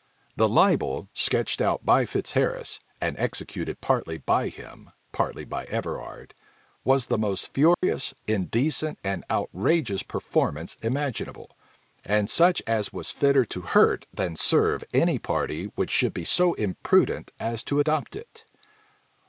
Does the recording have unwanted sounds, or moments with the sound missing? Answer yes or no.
yes